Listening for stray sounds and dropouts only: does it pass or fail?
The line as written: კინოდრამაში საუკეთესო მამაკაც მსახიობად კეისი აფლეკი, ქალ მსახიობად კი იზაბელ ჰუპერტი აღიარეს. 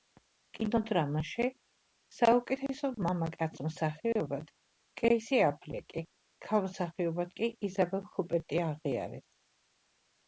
pass